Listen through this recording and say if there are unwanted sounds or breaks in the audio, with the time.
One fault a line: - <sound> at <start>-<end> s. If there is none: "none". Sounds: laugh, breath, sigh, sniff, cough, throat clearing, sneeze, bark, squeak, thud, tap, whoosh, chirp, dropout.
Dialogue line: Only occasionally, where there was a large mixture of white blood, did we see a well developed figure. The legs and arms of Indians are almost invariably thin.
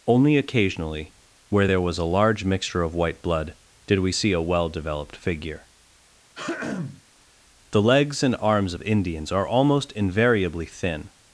- throat clearing at 6.4-7.0 s